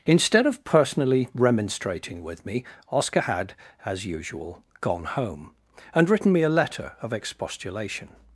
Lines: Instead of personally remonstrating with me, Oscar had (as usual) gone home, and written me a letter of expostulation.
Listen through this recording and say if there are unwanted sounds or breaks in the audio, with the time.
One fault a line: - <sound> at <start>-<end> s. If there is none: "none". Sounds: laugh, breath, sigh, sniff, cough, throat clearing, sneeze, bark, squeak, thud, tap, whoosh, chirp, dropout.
none